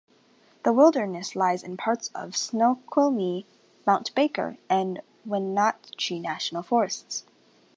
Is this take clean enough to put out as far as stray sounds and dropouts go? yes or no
yes